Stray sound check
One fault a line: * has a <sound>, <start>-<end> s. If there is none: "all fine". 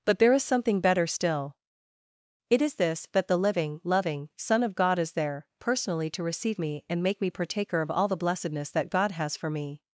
all fine